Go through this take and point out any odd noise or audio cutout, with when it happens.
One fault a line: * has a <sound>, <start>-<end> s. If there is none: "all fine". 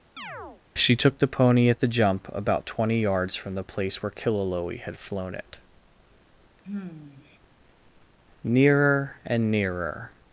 * has a chirp, 0.2-0.6 s
* has a sigh, 6.6-7.4 s